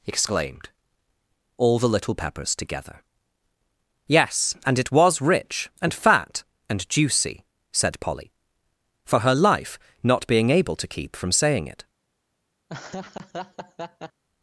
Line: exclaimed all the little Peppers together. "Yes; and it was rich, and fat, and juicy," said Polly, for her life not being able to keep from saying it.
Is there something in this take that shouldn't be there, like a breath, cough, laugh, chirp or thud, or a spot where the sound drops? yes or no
yes